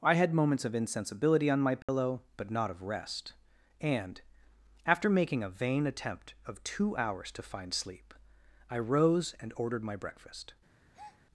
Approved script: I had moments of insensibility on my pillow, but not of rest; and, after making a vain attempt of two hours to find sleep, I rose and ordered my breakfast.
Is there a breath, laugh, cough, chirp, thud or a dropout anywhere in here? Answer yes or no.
yes